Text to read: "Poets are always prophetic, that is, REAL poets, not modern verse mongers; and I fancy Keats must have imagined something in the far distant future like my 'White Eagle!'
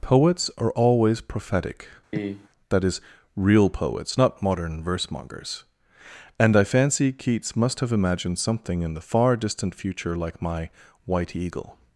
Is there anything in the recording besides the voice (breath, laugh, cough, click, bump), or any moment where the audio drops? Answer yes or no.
yes